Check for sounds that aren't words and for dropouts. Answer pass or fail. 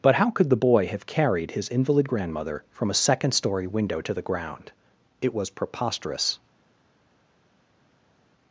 pass